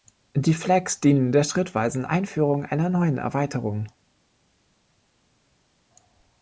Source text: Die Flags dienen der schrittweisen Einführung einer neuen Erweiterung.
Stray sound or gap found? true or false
false